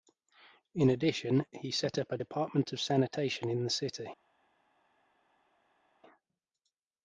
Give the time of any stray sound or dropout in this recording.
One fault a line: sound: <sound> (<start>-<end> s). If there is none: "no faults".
no faults